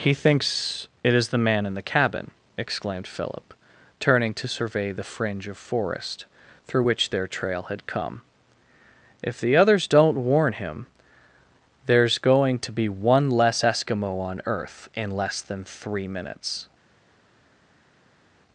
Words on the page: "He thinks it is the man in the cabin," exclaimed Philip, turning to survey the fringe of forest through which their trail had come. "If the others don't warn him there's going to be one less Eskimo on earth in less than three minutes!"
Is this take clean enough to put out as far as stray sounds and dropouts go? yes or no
yes